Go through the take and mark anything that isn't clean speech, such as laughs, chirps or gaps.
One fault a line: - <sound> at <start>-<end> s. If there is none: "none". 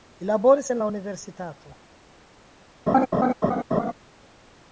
- laugh at 2.9-3.9 s